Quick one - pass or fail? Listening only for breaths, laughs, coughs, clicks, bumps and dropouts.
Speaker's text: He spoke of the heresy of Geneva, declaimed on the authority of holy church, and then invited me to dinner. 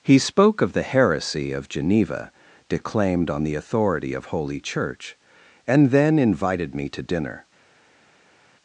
pass